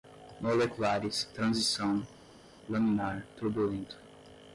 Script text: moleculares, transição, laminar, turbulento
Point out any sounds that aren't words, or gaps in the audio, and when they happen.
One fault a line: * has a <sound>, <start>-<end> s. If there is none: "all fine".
all fine